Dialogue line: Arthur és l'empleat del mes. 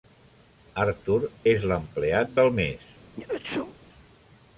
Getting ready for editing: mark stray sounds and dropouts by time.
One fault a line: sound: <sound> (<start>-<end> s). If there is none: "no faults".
sound: sneeze (3.2-3.8 s)